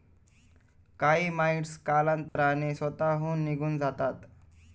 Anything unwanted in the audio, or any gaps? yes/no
yes